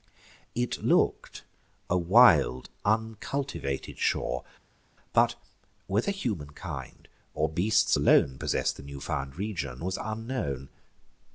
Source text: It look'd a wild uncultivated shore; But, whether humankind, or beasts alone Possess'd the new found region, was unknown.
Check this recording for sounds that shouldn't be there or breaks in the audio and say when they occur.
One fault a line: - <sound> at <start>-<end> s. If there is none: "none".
none